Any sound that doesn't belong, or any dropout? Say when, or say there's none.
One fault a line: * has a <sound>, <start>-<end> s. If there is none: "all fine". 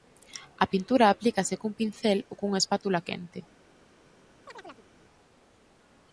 * has a chirp, 4.5-4.9 s